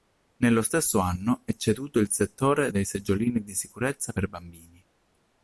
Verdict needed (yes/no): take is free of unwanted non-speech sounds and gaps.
yes